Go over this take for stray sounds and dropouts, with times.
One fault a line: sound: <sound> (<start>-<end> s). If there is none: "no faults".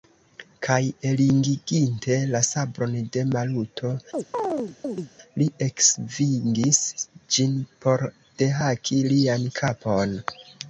sound: chirp (4.1-5.1 s)